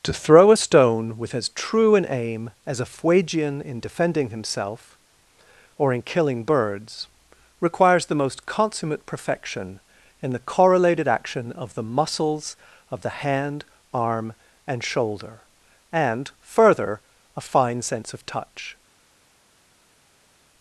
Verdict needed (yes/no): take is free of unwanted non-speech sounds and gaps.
yes